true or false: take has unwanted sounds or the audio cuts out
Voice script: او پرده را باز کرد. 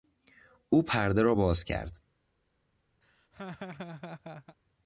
true